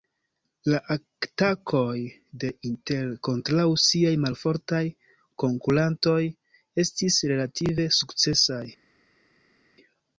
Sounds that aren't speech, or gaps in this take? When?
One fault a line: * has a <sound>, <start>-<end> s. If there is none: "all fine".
all fine